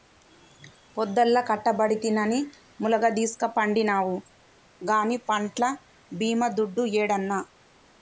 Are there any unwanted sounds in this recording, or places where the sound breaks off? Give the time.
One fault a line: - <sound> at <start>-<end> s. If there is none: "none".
none